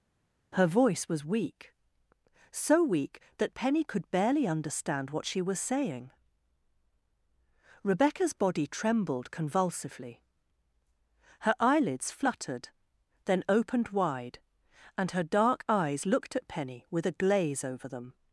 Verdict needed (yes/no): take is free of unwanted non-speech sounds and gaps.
yes